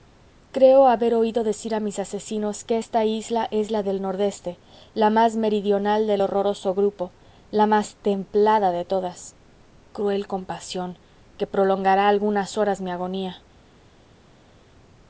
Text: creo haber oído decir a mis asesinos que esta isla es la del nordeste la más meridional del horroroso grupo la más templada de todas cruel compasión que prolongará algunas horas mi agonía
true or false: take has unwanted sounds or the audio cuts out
false